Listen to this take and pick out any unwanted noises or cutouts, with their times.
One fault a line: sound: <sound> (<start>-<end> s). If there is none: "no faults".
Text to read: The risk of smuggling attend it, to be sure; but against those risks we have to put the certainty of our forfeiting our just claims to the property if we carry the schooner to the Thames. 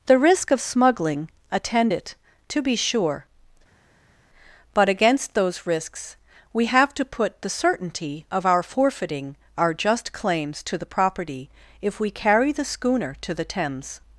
no faults